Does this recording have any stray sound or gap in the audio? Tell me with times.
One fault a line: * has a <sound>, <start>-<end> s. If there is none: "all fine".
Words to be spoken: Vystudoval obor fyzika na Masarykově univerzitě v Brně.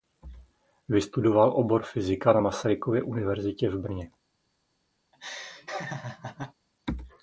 * has a laugh, 5.1-6.5 s